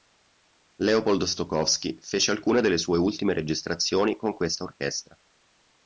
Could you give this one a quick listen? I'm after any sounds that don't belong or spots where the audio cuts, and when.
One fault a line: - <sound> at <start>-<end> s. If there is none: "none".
none